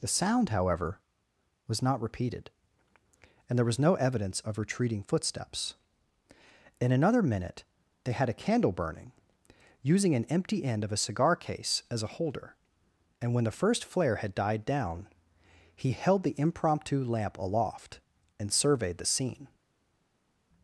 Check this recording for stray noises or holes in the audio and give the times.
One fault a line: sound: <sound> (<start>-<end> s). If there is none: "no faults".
no faults